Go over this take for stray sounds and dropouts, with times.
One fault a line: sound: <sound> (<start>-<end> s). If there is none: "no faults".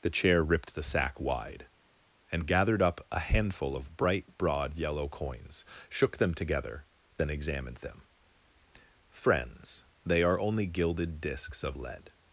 no faults